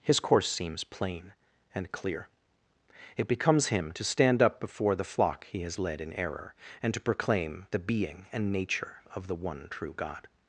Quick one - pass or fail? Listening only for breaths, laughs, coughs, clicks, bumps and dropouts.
pass